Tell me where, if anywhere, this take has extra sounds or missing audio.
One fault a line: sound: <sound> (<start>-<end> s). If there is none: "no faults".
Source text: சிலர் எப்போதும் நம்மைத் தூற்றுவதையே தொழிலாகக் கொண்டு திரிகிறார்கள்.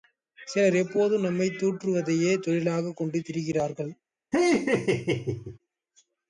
sound: laugh (4.3-5.6 s)